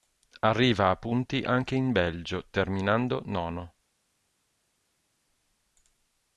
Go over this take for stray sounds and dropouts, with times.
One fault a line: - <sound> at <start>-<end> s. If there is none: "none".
none